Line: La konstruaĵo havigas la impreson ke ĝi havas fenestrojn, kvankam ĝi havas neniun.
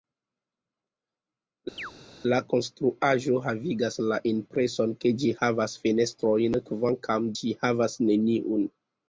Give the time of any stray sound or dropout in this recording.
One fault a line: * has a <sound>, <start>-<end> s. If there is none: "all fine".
* has a chirp, 1.8-1.9 s